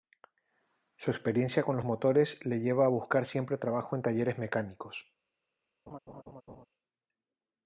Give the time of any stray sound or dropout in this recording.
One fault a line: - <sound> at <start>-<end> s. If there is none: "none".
- laugh at 5.9-6.7 s